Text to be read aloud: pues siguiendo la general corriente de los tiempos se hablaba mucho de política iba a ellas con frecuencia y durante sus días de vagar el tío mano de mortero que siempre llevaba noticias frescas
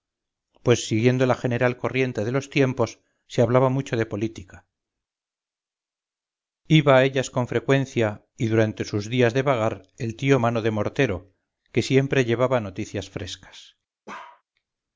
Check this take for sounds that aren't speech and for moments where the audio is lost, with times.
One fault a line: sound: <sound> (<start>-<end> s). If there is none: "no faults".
sound: bark (14.1-14.4 s)